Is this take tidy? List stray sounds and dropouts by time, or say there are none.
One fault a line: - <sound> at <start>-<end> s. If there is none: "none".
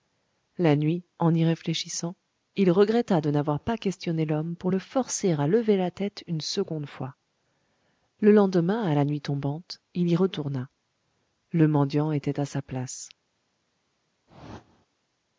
- whoosh at 14.3-14.9 s